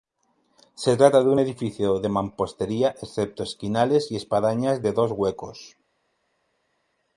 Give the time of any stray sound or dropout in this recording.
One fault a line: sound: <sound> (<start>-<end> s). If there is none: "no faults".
no faults